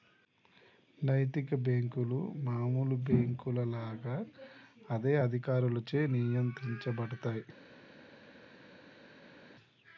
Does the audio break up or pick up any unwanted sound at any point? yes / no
no